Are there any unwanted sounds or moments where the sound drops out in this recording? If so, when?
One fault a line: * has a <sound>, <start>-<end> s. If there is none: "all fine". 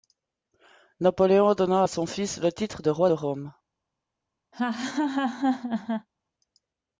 * has a laugh, 4.5-6.1 s